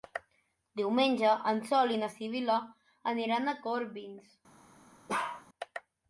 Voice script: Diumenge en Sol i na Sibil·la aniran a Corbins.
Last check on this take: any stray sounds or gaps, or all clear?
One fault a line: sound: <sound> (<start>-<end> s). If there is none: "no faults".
sound: bark (5.1-5.5 s)